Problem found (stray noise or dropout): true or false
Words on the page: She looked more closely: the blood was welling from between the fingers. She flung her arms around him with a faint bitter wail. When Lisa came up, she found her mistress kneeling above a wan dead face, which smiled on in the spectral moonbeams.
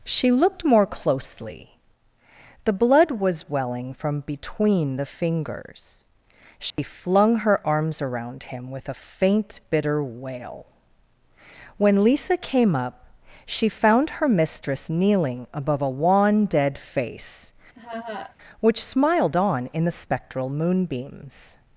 true